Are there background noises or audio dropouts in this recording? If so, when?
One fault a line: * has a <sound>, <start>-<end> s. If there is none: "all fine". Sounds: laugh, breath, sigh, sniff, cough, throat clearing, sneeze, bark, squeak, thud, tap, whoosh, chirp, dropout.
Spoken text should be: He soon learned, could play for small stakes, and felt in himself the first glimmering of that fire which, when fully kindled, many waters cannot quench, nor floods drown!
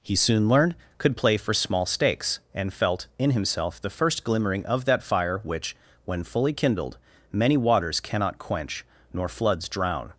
all fine